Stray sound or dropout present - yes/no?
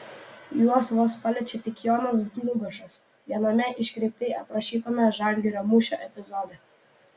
no